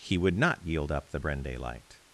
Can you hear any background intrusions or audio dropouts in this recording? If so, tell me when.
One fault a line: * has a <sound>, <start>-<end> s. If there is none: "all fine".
all fine